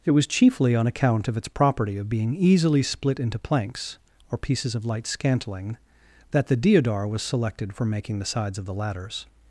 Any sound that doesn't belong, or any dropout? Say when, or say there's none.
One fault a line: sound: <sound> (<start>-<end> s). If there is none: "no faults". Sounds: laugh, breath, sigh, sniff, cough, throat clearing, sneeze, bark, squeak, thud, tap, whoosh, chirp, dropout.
no faults